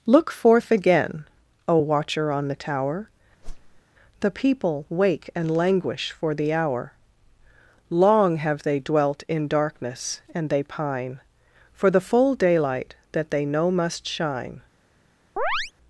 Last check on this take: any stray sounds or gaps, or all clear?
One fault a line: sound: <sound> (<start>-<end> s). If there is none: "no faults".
sound: whoosh (3.4-3.8 s)
sound: chirp (15.4-15.7 s)